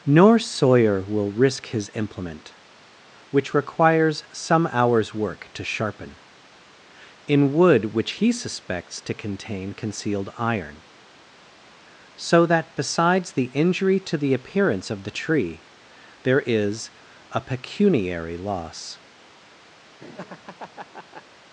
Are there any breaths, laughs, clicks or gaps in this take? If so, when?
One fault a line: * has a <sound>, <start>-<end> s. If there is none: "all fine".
* has a laugh, 20.0-21.2 s